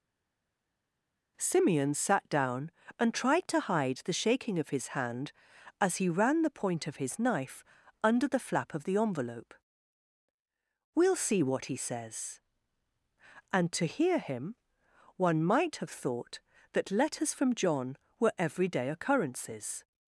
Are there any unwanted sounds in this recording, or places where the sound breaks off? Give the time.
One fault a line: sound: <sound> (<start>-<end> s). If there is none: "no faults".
no faults